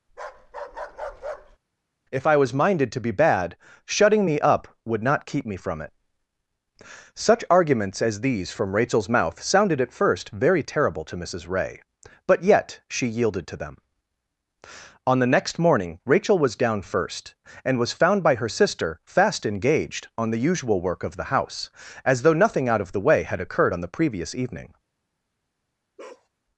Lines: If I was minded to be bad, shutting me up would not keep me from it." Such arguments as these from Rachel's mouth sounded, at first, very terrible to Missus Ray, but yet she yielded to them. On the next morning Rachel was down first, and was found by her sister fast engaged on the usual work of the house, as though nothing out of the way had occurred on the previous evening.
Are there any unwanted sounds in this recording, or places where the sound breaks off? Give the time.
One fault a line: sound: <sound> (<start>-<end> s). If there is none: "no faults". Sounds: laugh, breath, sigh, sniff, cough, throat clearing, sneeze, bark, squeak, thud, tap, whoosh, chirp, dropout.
sound: bark (0.1-1.6 s)
sound: bark (26.0-26.3 s)